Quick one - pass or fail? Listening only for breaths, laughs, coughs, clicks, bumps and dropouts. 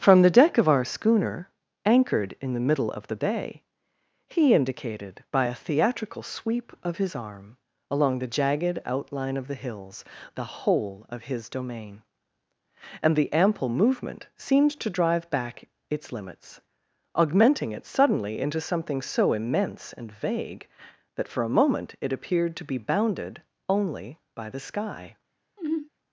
fail